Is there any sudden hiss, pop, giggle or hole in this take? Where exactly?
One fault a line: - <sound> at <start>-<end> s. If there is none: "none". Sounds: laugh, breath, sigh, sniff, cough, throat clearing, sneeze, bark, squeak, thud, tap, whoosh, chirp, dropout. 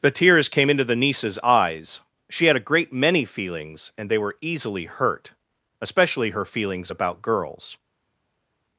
none